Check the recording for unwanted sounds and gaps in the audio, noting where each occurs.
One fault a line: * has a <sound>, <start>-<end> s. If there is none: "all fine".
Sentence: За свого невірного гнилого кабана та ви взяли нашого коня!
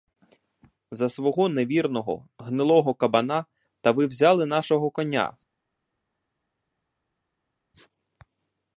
all fine